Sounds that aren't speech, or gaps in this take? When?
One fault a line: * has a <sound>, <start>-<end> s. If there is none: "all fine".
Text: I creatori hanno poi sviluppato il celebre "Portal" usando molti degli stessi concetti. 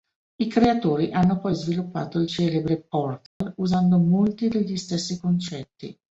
* has a dropout, 3.3-3.4 s